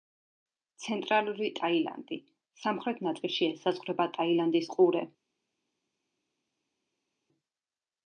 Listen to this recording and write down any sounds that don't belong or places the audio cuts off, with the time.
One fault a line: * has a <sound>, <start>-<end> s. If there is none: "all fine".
all fine